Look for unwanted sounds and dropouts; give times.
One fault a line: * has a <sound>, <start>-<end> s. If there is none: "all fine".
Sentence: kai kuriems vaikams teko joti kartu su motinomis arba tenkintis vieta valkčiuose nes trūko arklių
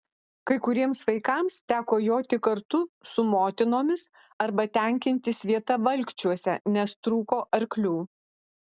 all fine